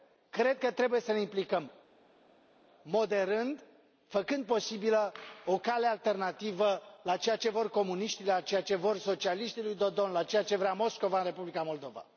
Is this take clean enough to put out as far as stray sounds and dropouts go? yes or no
yes